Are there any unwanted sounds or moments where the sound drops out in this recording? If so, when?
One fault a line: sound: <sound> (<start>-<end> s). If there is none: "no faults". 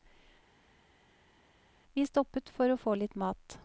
no faults